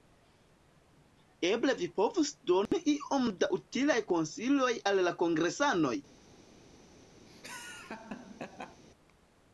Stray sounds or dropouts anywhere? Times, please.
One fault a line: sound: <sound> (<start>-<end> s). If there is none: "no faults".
sound: dropout (2.7-2.7 s)
sound: laugh (7.3-8.8 s)